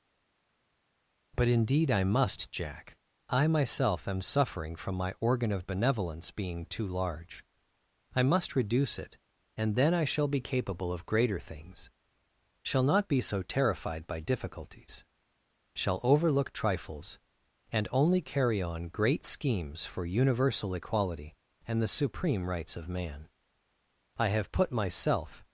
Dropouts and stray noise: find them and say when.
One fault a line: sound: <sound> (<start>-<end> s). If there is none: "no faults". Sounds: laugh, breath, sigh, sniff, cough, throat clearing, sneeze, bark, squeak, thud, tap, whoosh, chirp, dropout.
no faults